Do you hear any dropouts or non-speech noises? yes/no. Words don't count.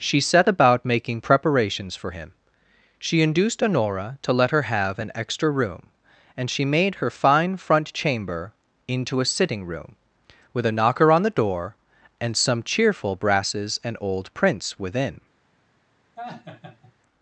yes